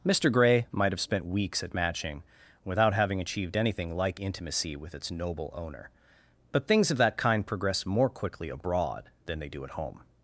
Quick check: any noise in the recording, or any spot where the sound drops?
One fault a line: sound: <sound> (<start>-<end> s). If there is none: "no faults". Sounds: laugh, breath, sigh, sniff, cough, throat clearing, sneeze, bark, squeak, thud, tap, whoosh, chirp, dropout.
no faults